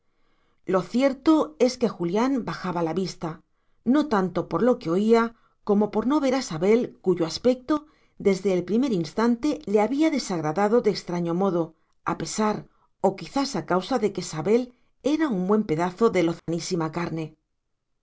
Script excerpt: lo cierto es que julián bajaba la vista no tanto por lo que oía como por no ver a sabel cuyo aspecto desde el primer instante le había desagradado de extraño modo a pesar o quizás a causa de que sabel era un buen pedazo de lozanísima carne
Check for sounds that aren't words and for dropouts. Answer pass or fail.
fail